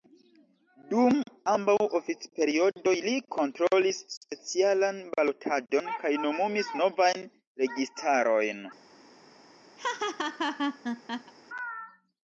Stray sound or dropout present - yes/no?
yes